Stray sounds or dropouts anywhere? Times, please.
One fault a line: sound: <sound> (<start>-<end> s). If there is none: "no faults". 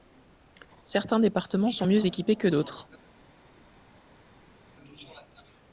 no faults